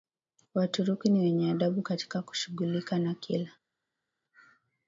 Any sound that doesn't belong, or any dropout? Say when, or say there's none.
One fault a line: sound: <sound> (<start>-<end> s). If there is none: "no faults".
no faults